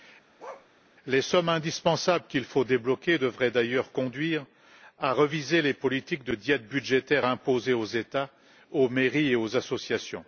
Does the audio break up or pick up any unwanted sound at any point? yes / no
yes